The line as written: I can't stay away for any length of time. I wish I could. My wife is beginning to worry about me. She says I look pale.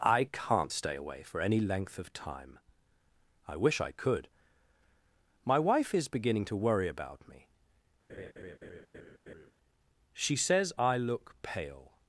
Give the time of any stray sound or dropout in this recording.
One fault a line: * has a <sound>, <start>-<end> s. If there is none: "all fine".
* has a laugh, 8.1-9.5 s